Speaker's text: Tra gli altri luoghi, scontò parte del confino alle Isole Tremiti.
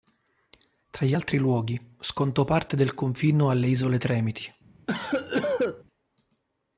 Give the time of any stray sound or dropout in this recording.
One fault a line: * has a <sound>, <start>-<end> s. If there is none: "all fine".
* has a cough, 4.9-5.8 s